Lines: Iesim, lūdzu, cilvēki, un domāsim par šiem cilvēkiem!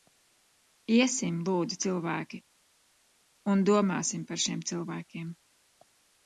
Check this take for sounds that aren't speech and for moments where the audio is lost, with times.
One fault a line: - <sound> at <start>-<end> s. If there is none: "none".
none